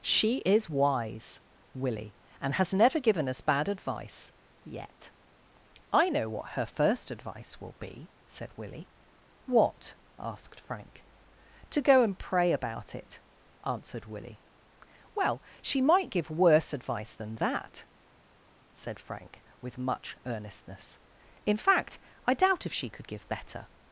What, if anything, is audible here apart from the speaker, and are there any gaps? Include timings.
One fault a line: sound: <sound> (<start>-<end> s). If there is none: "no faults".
no faults